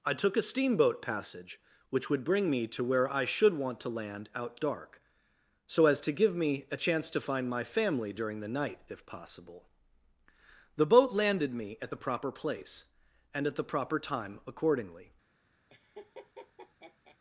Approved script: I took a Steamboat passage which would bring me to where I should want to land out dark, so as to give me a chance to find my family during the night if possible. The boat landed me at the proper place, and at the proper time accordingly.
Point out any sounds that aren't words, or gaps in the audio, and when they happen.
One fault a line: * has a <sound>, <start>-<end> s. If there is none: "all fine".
* has a laugh, 15.7-17.2 s